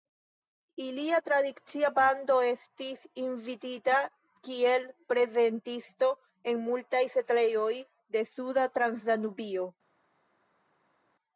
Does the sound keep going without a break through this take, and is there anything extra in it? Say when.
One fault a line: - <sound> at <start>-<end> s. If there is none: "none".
none